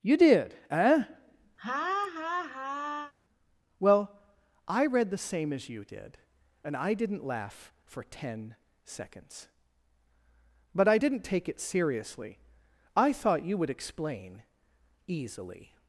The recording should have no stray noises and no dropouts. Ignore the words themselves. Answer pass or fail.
fail